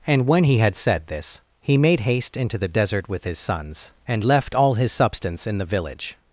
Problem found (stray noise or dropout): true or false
false